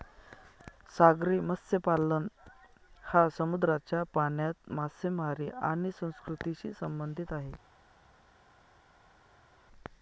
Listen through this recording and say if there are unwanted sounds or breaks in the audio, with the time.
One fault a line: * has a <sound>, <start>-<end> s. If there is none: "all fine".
all fine